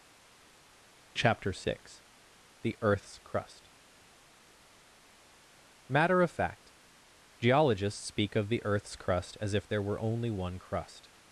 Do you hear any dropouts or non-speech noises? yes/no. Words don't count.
no